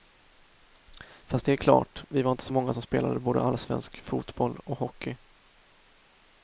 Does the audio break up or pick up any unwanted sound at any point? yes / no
no